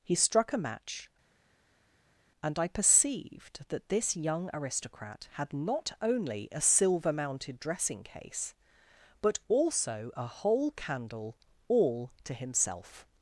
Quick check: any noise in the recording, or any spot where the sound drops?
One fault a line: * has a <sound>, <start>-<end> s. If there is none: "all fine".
all fine